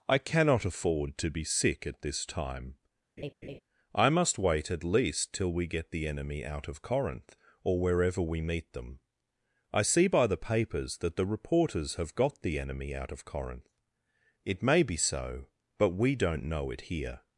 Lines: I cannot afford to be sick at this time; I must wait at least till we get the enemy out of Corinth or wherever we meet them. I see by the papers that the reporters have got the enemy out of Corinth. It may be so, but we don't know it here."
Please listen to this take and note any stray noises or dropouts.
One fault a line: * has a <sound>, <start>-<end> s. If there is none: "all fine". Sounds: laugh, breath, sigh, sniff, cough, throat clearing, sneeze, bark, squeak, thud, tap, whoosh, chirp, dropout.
* has a laugh, 3.2-3.6 s